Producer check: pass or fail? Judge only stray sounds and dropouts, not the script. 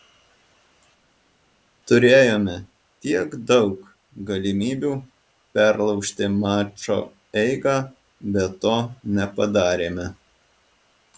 pass